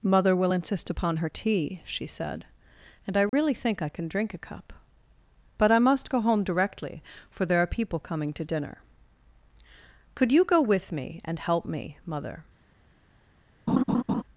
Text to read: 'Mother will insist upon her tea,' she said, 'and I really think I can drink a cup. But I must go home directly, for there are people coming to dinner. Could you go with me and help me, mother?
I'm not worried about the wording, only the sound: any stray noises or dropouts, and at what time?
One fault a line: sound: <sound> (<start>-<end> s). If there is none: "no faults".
sound: dropout (3.3-3.3 s)
sound: laugh (13.7-14.2 s)